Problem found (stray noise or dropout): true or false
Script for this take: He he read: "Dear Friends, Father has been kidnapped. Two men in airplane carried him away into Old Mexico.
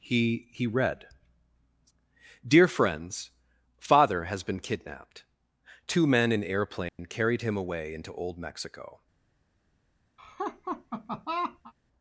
true